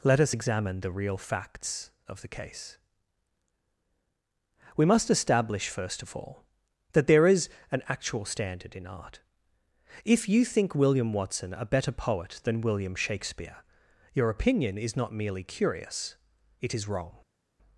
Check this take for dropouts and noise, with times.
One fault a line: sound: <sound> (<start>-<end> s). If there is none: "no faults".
no faults